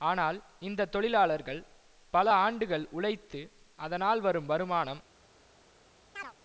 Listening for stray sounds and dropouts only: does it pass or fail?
fail